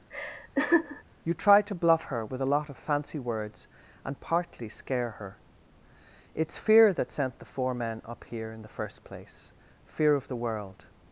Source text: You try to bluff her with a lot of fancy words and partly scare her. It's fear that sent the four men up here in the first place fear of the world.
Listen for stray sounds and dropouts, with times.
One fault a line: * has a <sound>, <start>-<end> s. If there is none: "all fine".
* has a laugh, 0.1-1.0 s